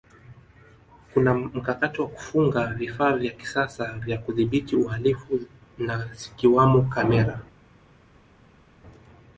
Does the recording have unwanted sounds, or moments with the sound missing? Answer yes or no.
no